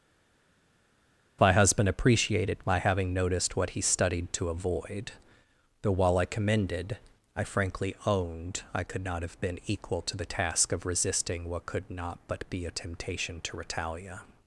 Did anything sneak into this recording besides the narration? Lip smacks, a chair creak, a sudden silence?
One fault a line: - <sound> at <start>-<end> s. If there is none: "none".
none